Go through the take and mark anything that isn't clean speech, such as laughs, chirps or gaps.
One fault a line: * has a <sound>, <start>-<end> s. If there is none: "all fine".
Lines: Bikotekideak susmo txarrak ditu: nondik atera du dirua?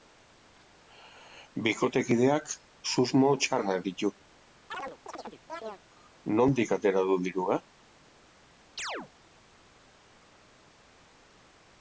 * has a chirp, 4.7-5.8 s
* has a chirp, 8.8-9.1 s